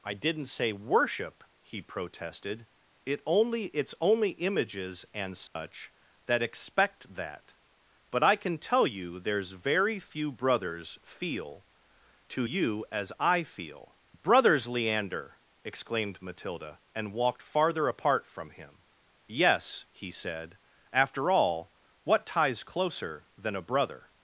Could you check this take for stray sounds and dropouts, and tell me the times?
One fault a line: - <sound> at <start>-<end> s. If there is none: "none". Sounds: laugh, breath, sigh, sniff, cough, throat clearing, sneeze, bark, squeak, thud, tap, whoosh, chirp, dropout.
- dropout at 5.5-5.6 s